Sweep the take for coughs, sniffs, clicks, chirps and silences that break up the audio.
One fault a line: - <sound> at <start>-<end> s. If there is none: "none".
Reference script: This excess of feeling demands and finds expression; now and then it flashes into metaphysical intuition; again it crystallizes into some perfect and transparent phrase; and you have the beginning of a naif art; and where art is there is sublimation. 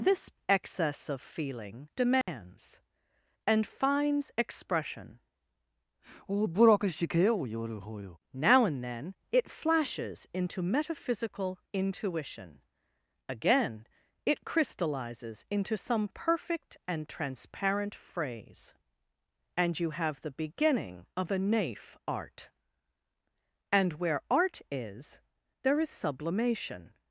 - dropout at 2.2-2.3 s